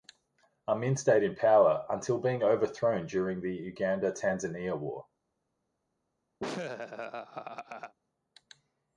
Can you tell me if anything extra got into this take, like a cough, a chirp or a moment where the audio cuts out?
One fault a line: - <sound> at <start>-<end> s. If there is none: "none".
- laugh at 6.4-7.9 s